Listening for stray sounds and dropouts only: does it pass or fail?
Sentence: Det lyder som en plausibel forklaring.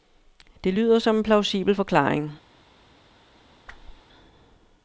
fail